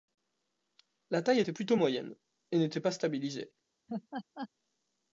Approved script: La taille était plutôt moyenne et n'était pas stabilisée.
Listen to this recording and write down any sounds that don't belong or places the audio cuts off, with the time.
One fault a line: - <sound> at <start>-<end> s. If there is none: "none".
- laugh at 3.9-4.5 s